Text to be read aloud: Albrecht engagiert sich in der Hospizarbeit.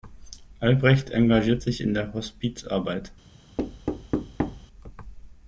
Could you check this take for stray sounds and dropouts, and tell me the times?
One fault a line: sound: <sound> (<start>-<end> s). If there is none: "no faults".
sound: thud (3.6-4.7 s)